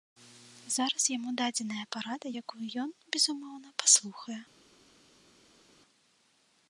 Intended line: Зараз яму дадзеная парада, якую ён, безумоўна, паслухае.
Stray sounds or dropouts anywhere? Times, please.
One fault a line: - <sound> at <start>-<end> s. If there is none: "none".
none